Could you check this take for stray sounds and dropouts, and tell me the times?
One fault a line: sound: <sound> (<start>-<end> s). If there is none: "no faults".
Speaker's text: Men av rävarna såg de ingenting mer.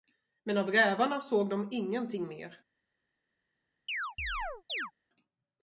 sound: chirp (3.9-4.9 s)